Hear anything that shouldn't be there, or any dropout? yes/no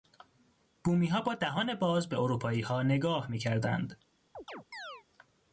yes